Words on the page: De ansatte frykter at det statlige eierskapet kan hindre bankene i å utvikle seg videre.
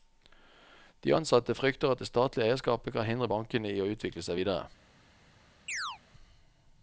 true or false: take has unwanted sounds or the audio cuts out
true